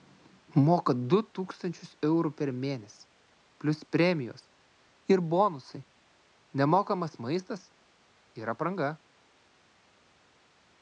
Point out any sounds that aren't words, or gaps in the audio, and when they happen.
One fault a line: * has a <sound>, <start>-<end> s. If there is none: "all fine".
all fine